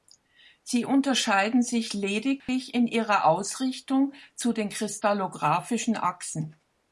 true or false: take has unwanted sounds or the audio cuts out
true